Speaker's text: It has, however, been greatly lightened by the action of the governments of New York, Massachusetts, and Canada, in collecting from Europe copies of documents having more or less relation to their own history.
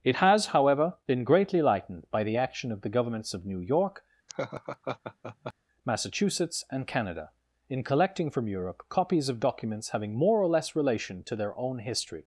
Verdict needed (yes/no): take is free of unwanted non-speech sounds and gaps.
no